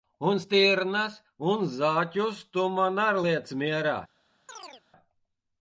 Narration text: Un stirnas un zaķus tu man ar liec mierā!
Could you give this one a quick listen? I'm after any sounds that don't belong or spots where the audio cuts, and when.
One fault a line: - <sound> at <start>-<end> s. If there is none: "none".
- chirp at 4.5-4.8 s